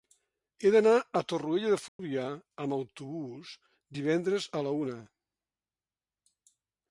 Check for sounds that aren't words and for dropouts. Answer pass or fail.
fail